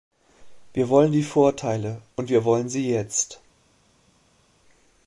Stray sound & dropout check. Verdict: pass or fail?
pass